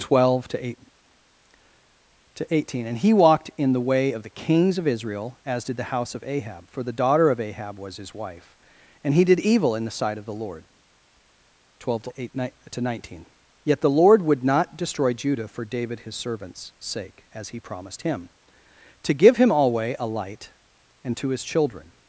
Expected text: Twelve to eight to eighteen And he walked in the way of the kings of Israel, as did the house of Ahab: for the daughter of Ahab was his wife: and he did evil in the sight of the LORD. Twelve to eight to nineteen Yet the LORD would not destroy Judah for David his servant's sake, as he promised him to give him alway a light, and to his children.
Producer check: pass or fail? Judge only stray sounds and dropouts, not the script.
pass